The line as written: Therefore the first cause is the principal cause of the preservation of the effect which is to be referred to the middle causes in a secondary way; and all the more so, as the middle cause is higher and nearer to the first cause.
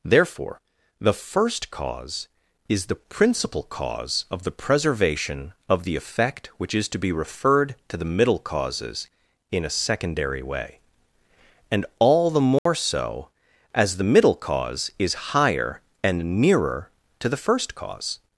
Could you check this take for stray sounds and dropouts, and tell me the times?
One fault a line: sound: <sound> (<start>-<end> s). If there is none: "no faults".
sound: dropout (12.6-12.7 s)